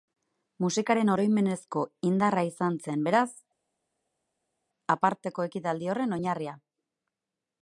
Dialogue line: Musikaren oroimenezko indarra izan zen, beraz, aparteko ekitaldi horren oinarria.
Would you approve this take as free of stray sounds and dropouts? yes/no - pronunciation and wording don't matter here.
yes